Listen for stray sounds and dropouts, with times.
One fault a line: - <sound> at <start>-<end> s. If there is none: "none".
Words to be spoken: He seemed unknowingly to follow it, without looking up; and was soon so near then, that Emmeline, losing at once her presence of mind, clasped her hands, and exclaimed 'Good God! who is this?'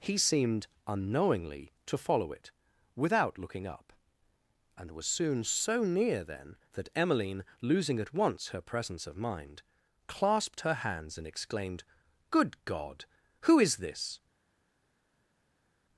none